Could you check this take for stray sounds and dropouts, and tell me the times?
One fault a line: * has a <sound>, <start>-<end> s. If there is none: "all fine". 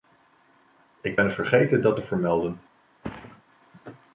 * has a thud, 3.0-3.4 s